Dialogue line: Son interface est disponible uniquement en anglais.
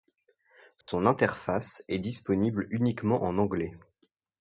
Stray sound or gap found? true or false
true